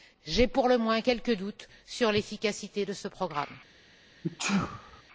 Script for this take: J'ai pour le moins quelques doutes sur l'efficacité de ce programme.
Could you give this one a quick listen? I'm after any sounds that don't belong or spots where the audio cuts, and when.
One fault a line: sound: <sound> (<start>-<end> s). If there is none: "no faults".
sound: sneeze (4.2-5.0 s)